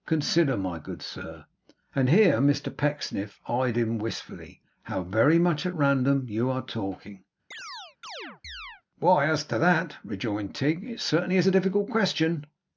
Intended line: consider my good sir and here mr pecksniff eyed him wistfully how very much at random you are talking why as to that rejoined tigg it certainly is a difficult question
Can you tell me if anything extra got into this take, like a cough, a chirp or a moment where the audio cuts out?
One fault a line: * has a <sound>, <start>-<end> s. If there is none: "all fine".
* has a chirp, 7.5-8.8 s